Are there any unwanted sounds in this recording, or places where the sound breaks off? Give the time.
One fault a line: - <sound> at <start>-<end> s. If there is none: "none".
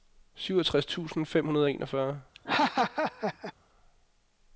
- laugh at 2.3-3.5 s